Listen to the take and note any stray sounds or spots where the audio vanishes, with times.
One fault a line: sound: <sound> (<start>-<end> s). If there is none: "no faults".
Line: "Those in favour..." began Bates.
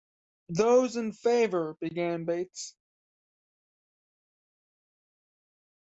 no faults